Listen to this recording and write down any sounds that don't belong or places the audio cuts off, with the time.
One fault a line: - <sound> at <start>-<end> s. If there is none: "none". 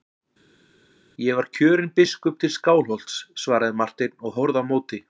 none